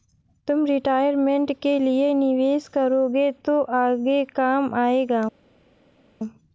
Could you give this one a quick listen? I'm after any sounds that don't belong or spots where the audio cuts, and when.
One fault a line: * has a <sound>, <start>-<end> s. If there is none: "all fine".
all fine